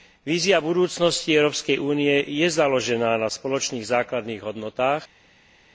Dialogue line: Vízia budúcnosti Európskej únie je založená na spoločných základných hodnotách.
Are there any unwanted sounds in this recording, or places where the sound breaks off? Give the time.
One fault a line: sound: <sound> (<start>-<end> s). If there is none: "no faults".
no faults